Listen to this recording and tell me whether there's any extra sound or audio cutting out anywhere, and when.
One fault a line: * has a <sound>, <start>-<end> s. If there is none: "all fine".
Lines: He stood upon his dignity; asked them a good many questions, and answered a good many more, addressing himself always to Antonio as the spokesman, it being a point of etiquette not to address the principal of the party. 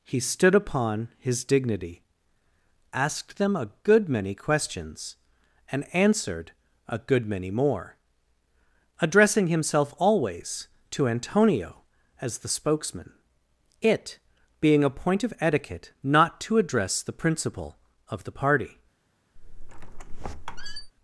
* has a squeak, 19.4-20.9 s